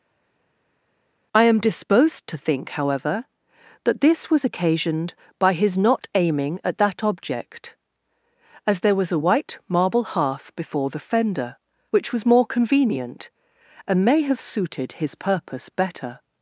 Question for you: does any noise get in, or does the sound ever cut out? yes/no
no